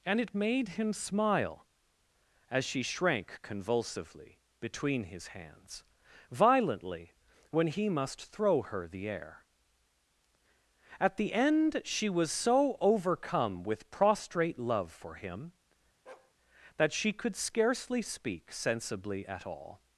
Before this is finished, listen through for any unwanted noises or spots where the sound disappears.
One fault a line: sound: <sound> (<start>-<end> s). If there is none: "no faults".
sound: bark (16.1-16.3 s)